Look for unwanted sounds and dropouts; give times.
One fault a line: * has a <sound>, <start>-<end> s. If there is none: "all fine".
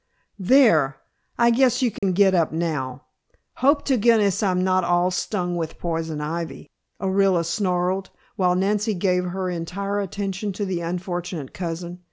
* has a dropout, 2.0-2.0 s